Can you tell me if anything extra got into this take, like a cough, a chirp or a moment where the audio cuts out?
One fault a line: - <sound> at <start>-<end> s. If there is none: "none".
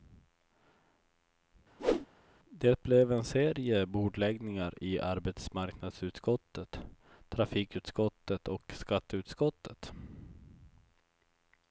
- whoosh at 1.8-2.1 s